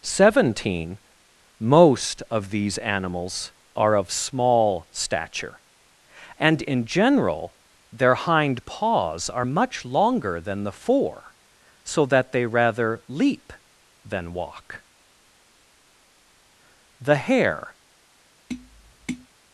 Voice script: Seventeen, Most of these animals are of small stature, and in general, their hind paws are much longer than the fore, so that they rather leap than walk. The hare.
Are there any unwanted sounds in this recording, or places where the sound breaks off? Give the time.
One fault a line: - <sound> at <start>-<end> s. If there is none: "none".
- tap at 18.5-19.3 s